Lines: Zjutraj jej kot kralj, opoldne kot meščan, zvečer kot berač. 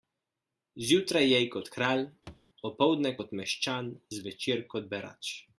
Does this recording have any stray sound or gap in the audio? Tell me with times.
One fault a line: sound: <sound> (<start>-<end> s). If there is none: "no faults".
sound: thud (2.3-2.5 s)